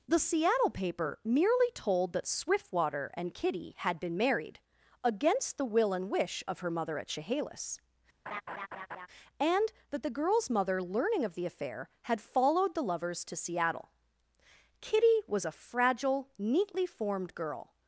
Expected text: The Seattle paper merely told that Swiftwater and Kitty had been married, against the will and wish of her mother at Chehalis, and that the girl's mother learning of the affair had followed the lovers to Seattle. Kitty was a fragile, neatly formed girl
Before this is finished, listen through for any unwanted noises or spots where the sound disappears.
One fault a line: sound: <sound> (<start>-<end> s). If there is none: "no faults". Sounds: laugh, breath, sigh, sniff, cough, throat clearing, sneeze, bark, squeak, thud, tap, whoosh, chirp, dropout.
sound: laugh (8.3-9.1 s)